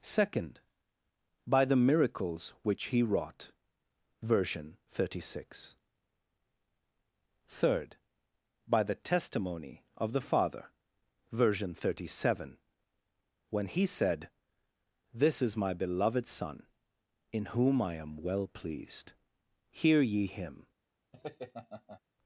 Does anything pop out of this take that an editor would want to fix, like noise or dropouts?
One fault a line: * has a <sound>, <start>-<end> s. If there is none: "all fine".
* has a laugh, 21.1-22.0 s